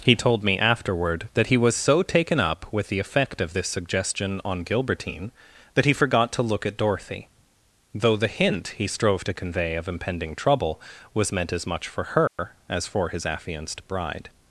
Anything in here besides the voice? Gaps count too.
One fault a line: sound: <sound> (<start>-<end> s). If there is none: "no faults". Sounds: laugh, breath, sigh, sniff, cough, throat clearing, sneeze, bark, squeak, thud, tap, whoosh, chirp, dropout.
sound: dropout (12.3-12.4 s)